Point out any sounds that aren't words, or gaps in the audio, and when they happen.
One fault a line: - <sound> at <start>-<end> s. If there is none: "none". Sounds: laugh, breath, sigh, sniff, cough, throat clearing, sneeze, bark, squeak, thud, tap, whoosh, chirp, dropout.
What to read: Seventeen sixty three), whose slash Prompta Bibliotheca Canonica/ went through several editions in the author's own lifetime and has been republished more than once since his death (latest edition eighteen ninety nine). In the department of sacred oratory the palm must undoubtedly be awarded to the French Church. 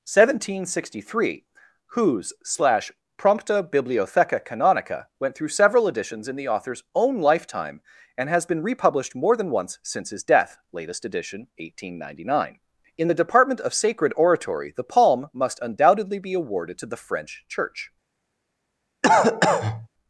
- cough at 19.0-19.9 s